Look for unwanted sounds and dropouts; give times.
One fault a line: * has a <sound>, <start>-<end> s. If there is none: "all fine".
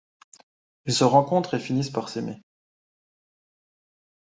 all fine